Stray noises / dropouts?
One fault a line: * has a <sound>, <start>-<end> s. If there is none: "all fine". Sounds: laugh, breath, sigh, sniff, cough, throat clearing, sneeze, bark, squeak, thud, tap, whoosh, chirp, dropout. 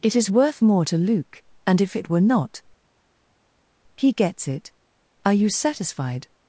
all fine